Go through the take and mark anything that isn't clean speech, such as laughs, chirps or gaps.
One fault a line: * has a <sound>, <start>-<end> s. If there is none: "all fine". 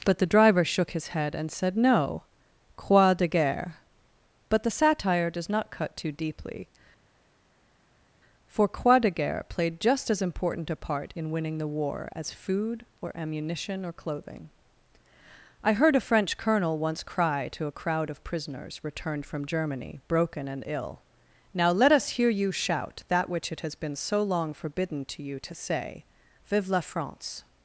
all fine